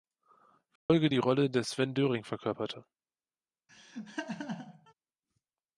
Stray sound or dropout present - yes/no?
yes